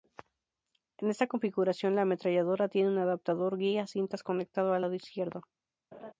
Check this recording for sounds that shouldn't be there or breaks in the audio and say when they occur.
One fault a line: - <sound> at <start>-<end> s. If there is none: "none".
- laugh at 5.9-6.1 s